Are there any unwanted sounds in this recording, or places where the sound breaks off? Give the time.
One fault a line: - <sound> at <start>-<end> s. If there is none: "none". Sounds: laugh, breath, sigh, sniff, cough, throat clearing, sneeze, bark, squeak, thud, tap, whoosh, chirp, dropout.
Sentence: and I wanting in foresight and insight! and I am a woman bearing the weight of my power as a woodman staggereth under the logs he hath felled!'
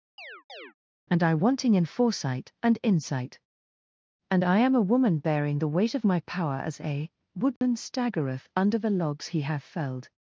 - chirp at 0.2-0.7 s
- dropout at 7.6-7.6 s